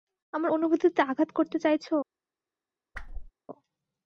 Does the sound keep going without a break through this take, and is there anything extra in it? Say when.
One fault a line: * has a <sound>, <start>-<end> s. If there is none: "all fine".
* has a whoosh, 2.9-3.3 s